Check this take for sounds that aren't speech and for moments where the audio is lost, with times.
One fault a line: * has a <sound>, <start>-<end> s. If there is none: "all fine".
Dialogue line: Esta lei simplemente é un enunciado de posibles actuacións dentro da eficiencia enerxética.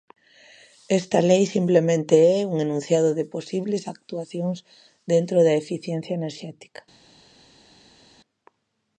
all fine